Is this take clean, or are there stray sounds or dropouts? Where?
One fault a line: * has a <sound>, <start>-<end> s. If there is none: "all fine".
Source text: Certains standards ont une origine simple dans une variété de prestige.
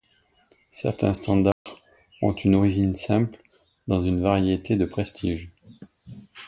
* has a dropout, 1.5-1.7 s